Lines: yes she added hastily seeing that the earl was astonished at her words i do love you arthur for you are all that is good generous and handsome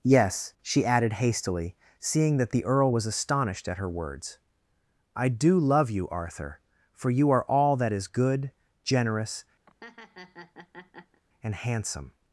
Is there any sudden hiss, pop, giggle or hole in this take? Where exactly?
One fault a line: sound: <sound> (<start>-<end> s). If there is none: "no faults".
sound: laugh (9.7-11.2 s)